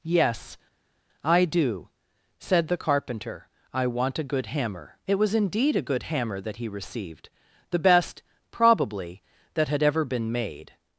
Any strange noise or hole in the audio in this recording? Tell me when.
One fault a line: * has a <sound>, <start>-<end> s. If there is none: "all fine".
all fine